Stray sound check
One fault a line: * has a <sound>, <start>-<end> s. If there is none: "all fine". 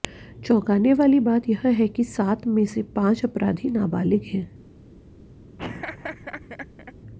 * has a laugh, 5.6-6.9 s